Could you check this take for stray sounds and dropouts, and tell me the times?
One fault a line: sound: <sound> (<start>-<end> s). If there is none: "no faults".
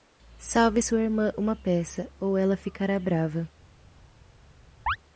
sound: chirp (4.9-5.0 s)